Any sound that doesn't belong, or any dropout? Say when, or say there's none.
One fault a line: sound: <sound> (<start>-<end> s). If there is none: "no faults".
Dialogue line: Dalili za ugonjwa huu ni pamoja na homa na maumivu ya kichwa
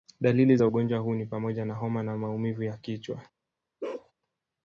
sound: bark (3.8-4.1 s)